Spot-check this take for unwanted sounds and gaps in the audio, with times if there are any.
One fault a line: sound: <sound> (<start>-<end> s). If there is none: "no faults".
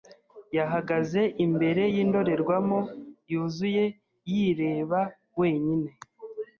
no faults